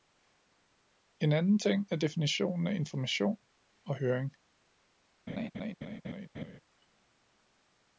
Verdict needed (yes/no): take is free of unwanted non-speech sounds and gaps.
no